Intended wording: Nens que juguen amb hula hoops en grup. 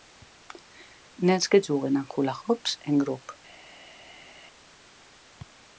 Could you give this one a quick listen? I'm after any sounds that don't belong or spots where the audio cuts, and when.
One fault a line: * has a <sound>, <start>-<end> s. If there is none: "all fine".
all fine